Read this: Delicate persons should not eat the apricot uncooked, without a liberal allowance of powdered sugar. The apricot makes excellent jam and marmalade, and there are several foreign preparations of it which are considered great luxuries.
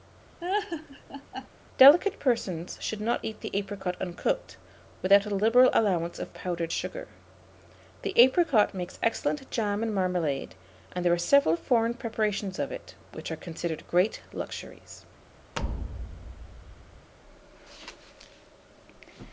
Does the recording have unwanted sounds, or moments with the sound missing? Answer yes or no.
yes